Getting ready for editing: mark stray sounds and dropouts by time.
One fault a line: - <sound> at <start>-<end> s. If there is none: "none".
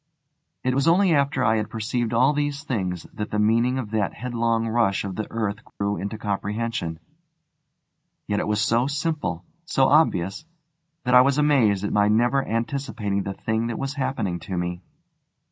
- dropout at 5.7-5.8 s